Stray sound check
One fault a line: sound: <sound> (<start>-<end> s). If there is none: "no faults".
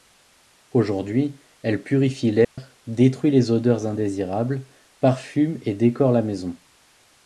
sound: dropout (2.4-2.6 s)